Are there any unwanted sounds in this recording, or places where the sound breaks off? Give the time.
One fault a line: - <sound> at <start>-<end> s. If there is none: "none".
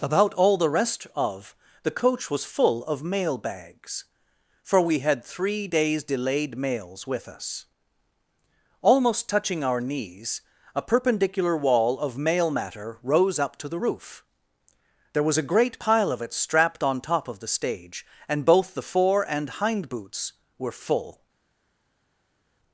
none